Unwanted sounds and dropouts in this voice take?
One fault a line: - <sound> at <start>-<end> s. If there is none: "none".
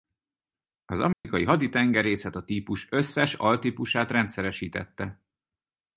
- dropout at 1.1-1.2 s